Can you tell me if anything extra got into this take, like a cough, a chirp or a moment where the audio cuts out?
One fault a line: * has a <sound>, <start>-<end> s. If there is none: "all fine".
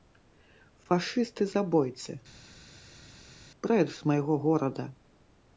all fine